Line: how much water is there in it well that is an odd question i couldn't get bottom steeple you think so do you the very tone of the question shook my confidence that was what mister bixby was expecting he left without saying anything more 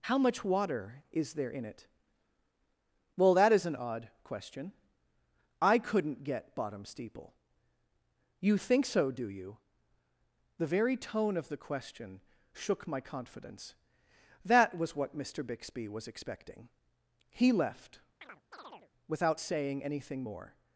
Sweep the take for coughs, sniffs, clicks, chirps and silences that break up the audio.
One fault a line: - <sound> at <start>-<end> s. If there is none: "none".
- chirp at 18.2-18.9 s